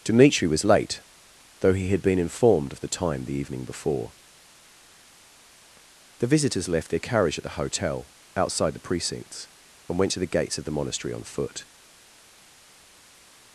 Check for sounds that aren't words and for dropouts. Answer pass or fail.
pass